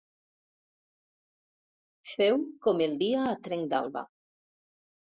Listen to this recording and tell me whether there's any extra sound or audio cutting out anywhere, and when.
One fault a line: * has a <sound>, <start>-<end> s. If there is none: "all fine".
all fine